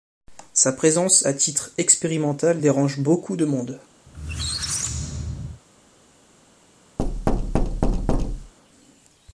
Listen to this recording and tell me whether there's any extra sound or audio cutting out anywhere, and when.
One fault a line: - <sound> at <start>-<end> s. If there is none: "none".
- squeak at 4.1-5.6 s
- thud at 7.0-8.5 s